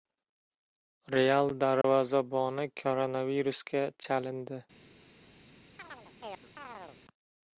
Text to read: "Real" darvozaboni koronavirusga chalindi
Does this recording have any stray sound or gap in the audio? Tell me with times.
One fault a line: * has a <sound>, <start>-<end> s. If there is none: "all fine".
* has a dropout, 1.8-1.8 s
* has a chirp, 5.8-7.0 s